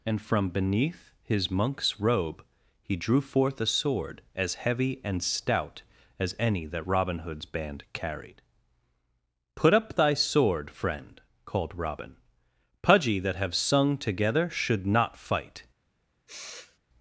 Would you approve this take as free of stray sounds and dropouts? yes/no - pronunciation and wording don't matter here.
no